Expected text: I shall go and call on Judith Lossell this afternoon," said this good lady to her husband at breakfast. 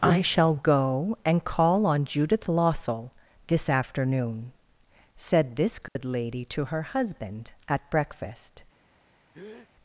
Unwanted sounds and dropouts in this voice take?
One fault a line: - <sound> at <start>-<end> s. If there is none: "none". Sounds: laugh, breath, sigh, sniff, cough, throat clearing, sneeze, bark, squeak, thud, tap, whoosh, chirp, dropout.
- dropout at 5.9-6.0 s
- breath at 9.3-9.7 s